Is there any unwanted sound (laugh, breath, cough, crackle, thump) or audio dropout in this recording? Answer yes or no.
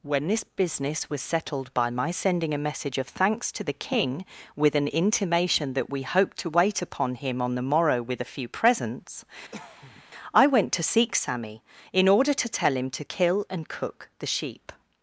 yes